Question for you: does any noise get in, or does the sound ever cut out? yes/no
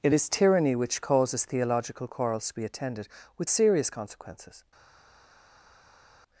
no